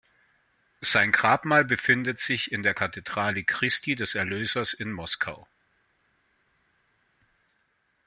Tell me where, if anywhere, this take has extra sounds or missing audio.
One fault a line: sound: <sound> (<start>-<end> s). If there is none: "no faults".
no faults